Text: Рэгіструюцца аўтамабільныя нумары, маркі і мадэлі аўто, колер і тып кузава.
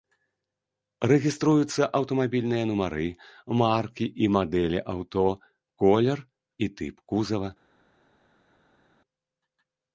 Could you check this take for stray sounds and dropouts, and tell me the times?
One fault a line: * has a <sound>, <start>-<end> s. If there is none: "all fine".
all fine